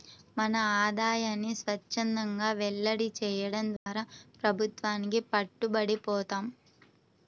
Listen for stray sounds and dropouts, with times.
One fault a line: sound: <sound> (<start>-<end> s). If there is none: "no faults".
sound: dropout (3.8-3.9 s)